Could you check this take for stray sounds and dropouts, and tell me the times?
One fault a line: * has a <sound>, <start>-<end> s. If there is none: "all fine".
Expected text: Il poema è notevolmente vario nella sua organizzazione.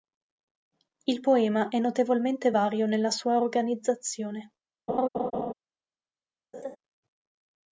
* has a laugh, 4.9-5.5 s
* has a laugh, 6.5-6.8 s